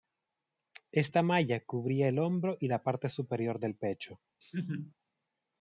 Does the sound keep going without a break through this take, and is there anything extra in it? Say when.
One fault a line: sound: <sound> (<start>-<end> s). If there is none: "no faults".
sound: laugh (4.4-4.9 s)